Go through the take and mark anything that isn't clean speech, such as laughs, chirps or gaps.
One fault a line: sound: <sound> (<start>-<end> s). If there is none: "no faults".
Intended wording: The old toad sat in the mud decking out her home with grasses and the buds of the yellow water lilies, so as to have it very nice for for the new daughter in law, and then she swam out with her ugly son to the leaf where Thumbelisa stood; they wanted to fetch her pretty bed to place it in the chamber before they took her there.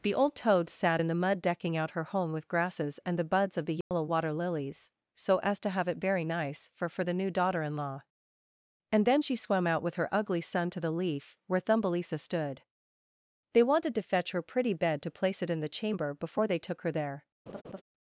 sound: dropout (3.8-3.9 s)
sound: laugh (17.5-17.8 s)